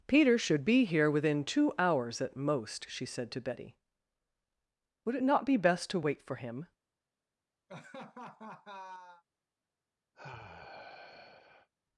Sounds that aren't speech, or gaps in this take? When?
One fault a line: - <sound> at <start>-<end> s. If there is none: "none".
- laugh at 7.7-9.2 s
- sigh at 10.1-11.7 s